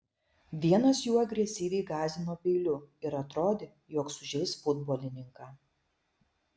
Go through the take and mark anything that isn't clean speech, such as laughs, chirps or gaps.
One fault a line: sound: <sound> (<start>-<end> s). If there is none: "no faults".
no faults